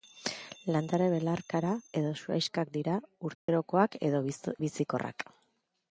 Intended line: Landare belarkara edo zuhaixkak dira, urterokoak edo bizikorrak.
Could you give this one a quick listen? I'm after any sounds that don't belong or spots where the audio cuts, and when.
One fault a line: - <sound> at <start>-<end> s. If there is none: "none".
- dropout at 3.3-3.5 s